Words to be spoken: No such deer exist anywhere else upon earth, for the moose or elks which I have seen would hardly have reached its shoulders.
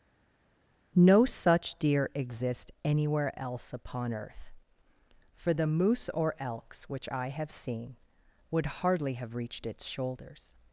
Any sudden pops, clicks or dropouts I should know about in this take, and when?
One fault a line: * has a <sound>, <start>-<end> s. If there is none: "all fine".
all fine